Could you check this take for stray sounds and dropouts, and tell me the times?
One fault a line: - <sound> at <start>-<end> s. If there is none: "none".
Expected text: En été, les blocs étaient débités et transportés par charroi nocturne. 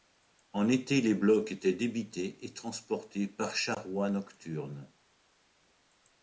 none